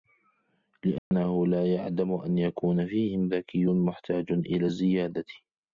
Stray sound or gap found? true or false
true